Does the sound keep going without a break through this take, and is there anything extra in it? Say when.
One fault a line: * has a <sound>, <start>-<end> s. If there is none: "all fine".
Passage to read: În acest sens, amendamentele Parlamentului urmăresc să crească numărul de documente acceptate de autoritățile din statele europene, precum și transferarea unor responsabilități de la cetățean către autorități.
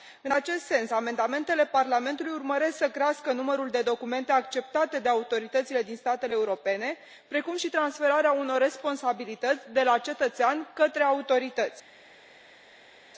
all fine